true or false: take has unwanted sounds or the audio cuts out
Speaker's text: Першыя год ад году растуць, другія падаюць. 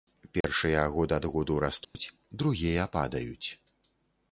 true